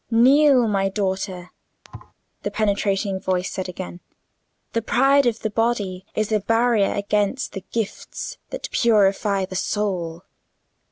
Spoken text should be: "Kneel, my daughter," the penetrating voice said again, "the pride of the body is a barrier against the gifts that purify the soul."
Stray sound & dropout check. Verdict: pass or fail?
fail